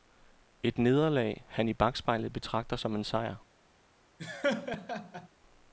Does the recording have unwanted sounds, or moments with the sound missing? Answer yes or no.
yes